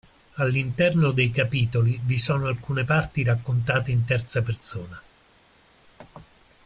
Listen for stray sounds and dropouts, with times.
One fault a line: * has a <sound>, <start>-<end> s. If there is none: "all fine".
all fine